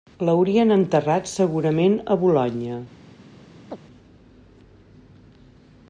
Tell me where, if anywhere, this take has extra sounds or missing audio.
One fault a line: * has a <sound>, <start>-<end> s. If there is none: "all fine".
* has a chirp, 3.7-3.8 s